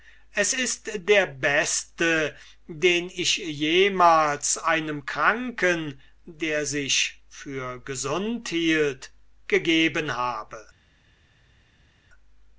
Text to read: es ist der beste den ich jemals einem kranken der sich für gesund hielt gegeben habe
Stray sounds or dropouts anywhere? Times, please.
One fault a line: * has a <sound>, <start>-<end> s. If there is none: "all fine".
all fine